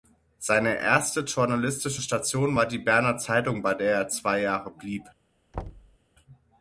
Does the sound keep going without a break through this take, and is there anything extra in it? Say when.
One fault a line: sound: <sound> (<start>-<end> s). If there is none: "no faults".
sound: thud (5.5-6.0 s)